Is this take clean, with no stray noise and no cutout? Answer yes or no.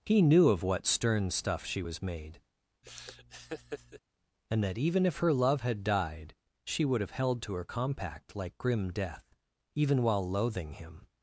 no